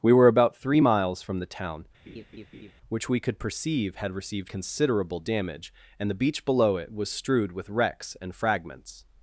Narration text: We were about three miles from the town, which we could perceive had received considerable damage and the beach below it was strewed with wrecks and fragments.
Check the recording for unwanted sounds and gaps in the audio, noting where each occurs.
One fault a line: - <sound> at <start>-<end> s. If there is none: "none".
- laugh at 2.1-2.7 s